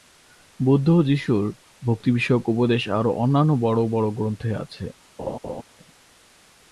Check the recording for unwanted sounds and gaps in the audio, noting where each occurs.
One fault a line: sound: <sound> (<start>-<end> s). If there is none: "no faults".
sound: laugh (5.2-5.6 s)